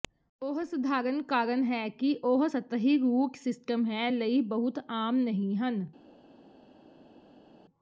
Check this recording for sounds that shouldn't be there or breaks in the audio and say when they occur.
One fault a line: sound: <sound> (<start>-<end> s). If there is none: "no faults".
no faults